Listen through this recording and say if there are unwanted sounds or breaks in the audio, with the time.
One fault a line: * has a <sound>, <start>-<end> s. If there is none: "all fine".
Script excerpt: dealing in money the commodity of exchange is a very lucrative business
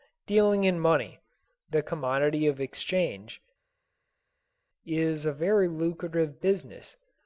all fine